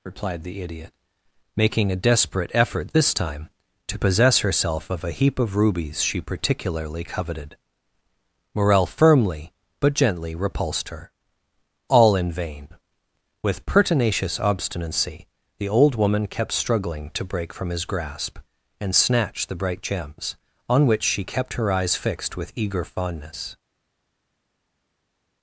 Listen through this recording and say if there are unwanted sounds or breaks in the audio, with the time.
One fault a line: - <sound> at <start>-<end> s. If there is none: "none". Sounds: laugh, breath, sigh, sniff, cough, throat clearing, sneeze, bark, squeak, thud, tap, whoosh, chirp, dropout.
none